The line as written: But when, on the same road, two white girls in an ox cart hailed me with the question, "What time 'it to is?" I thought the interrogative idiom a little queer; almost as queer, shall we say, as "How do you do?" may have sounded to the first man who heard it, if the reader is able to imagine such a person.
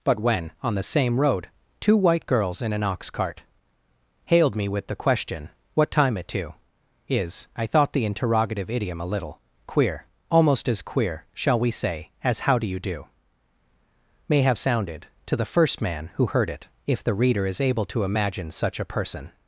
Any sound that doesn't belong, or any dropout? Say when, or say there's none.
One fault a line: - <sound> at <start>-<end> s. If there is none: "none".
none